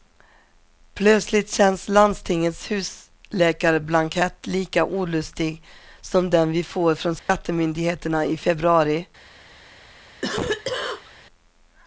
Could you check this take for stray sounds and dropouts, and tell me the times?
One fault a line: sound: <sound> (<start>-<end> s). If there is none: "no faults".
sound: dropout (7.2-7.3 s)
sound: cough (10.2-11.1 s)